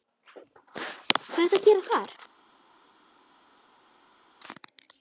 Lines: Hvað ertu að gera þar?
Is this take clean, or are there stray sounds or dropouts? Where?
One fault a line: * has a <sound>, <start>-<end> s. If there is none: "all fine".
all fine